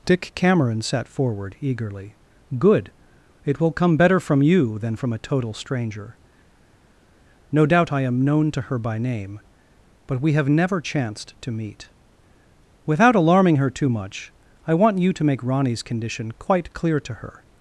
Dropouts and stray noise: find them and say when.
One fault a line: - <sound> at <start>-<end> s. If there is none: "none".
none